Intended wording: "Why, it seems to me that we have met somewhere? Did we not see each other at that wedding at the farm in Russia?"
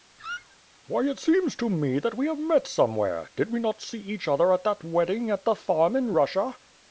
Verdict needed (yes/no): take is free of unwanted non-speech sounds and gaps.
no